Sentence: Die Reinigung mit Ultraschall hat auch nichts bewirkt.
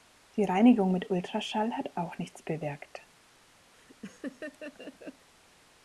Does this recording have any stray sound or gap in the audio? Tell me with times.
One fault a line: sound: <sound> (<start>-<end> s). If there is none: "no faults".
sound: laugh (3.7-5.3 s)